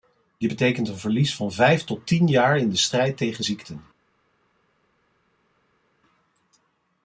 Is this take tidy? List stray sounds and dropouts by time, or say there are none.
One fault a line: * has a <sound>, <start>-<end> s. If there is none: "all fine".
all fine